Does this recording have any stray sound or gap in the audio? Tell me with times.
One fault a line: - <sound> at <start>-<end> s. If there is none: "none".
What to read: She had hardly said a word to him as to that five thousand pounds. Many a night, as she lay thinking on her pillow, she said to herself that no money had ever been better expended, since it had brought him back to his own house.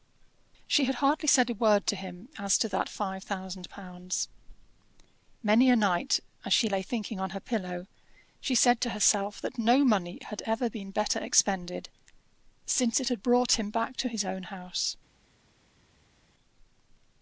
none